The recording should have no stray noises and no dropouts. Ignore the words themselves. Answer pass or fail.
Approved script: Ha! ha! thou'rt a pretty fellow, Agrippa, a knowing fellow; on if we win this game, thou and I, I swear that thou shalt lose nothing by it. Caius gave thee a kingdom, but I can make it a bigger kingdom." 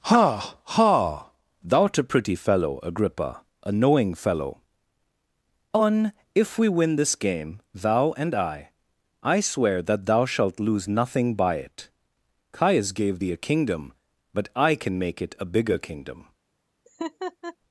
fail